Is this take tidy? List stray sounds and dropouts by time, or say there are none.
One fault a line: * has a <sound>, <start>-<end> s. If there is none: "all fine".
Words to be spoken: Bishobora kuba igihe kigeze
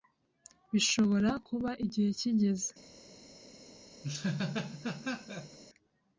* has a laugh, 4.0-5.6 s